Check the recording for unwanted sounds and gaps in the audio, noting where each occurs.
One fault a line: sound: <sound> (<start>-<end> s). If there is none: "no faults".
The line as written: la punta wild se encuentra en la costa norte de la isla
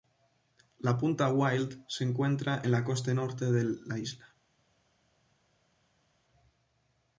no faults